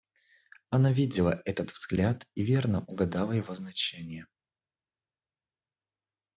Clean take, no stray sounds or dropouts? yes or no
yes